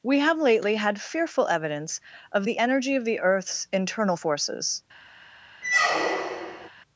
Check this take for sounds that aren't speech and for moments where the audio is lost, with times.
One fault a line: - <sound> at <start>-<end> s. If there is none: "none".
- squeak at 5.6-6.7 s